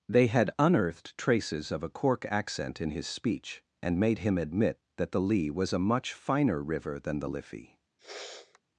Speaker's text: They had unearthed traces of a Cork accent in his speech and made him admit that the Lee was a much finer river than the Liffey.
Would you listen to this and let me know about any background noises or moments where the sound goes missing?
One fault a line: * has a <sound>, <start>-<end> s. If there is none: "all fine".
* has a sniff, 8.0-8.6 s